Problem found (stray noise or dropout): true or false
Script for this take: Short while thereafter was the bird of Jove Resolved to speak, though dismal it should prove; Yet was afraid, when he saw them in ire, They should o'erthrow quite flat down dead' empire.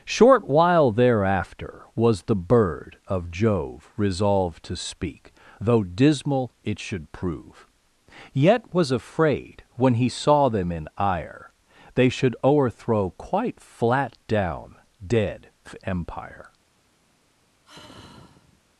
true